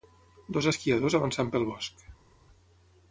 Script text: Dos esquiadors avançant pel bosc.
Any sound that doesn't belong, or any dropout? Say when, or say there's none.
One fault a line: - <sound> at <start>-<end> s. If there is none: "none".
none